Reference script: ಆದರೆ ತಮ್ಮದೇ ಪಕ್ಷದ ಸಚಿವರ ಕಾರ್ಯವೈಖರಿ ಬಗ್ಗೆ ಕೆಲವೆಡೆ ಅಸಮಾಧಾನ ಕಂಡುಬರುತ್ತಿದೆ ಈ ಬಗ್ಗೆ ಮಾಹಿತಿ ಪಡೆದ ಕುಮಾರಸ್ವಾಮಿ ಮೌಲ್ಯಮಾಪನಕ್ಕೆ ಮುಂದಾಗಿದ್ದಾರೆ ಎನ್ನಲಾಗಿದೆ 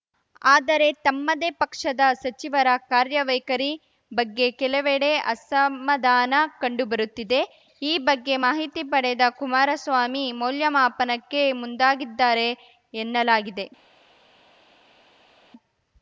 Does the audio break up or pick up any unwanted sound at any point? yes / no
no